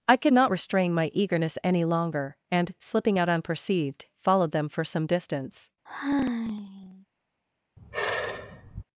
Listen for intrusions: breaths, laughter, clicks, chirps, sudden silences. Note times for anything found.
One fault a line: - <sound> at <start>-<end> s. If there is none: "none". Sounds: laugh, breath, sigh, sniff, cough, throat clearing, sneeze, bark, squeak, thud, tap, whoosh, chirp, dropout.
- sigh at 5.9-7.1 s
- sigh at 7.8-8.8 s